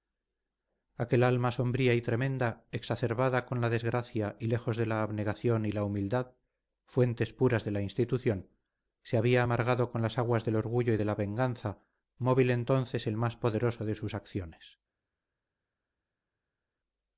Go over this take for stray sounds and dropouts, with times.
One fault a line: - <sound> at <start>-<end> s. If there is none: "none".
none